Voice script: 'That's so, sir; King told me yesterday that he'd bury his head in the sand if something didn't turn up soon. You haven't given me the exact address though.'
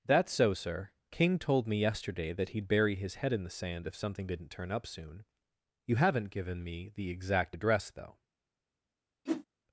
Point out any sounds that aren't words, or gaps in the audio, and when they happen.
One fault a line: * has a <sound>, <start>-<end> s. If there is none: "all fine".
* has a whoosh, 9.3-9.5 s